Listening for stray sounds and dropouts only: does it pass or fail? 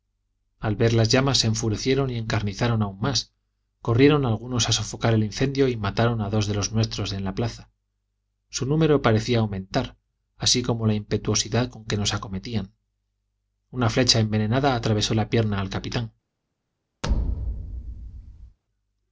fail